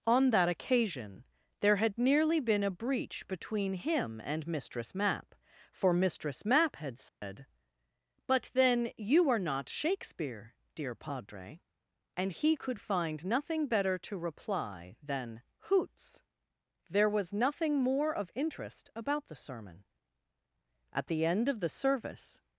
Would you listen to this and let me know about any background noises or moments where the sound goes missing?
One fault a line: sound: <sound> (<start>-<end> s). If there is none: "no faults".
sound: dropout (7.1-7.2 s)